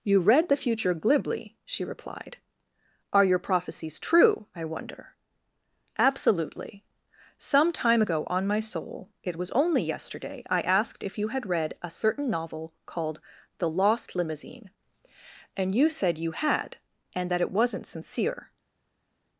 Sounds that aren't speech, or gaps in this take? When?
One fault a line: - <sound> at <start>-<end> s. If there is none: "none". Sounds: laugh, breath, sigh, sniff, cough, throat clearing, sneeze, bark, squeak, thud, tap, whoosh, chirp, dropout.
none